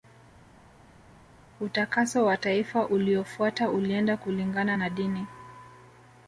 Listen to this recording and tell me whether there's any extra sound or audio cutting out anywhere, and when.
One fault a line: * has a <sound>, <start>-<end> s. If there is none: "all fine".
all fine